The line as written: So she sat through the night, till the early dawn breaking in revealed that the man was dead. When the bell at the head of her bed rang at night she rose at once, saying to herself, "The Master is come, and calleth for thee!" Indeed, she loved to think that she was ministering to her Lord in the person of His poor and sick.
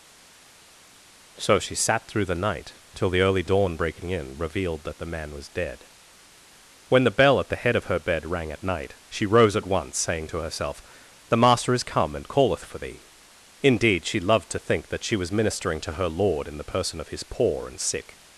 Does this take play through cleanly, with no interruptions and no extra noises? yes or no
yes